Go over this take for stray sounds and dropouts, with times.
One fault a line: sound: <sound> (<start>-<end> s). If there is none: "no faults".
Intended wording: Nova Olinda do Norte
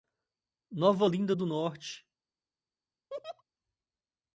sound: laugh (3.1-3.4 s)